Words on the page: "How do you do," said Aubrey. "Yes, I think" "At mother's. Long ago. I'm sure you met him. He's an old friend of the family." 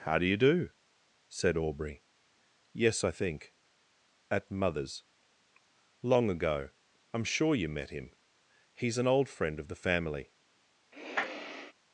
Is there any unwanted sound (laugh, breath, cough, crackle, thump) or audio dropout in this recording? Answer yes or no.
yes